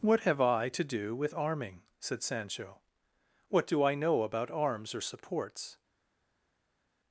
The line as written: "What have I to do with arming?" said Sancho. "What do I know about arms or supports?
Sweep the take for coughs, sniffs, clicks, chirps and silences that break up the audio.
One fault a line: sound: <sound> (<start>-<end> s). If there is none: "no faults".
no faults